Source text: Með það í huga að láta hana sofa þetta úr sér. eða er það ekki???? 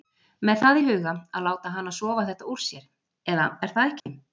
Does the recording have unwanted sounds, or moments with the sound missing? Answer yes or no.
yes